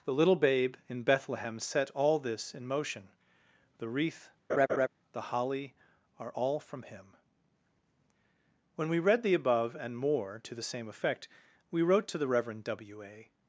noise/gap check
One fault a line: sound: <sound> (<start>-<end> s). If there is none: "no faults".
sound: laugh (4.5-4.9 s)